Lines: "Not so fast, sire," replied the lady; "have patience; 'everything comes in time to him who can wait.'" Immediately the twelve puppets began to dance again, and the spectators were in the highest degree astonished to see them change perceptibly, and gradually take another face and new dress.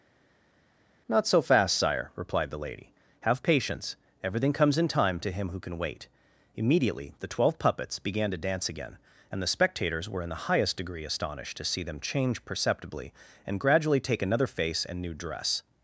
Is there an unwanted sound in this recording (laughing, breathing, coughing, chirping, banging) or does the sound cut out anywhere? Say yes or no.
no